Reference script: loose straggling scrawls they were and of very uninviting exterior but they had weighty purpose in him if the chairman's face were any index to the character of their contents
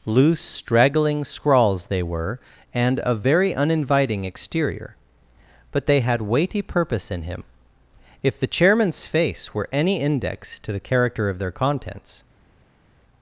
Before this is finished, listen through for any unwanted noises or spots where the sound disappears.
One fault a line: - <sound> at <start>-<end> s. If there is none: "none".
none